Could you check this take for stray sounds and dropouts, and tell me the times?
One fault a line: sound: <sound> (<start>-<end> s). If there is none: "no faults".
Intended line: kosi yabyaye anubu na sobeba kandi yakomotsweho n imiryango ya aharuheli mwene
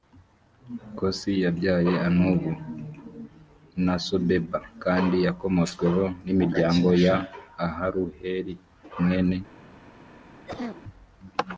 sound: cough (10.5-10.8 s)